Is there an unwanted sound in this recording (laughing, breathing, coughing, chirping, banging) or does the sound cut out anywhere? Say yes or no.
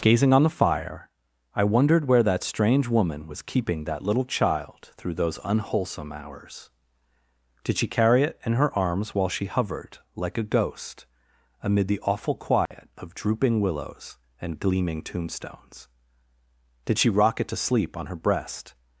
yes